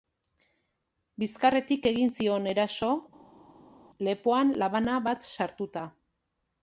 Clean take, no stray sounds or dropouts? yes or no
yes